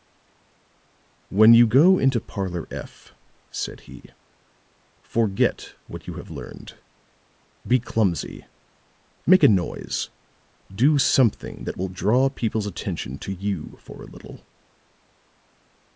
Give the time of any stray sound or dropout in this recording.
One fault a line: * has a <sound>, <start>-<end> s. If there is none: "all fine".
all fine